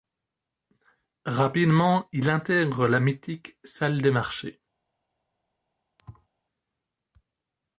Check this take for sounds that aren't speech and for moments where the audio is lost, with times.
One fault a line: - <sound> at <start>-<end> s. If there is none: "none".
- thud at 6.0-6.3 s